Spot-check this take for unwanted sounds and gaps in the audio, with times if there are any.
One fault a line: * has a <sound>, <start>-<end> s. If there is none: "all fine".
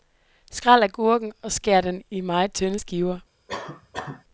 * has a cough, 3.5-4.2 s